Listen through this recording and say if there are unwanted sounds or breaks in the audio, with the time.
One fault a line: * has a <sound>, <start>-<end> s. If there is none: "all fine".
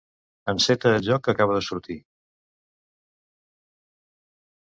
all fine